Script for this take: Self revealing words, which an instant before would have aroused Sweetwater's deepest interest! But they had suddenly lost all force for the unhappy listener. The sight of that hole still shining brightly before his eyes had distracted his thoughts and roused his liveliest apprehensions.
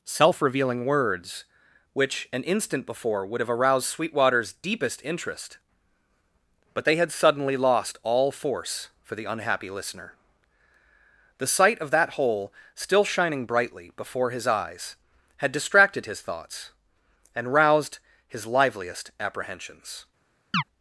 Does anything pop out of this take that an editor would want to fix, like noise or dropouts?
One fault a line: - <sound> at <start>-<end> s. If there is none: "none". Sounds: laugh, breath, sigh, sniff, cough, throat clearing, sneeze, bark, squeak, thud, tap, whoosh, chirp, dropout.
- chirp at 20.5-20.6 s